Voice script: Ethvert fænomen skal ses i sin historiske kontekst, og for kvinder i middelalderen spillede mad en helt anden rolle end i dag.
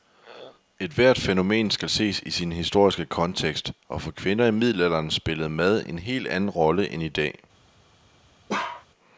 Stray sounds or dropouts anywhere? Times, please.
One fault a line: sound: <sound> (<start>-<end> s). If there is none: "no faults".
sound: bark (8.5-8.9 s)